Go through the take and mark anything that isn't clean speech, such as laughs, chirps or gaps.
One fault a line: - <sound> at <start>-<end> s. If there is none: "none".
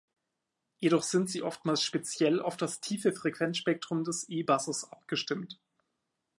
none